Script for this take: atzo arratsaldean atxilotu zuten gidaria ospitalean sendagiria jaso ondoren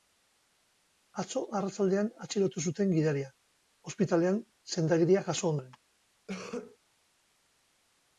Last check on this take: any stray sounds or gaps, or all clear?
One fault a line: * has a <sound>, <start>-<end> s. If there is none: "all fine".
* has a cough, 6.3-6.8 s